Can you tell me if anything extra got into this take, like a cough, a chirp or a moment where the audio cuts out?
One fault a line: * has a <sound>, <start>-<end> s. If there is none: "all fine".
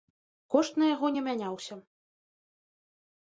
all fine